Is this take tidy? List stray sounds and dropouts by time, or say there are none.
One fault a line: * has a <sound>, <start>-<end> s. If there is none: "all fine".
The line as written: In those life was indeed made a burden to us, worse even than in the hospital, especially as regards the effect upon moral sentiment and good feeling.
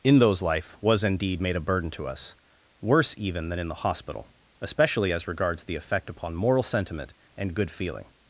all fine